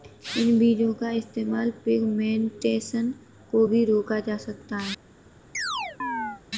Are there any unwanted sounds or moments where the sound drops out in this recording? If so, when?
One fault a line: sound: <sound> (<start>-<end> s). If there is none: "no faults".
sound: chirp (5.5-6.4 s)